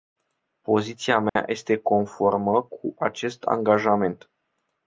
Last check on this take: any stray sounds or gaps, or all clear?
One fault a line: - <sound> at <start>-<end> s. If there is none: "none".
- dropout at 1.3-1.4 s